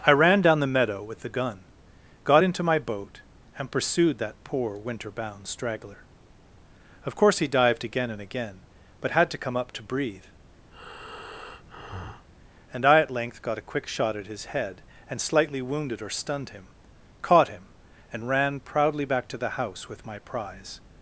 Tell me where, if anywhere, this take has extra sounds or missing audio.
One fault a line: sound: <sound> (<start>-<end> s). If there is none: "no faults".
sound: breath (10.7-12.3 s)